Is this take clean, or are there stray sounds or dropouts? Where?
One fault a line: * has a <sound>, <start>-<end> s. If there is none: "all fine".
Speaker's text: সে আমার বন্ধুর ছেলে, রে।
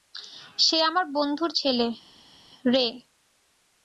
all fine